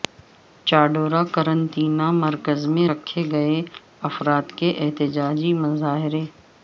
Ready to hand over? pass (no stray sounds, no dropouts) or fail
pass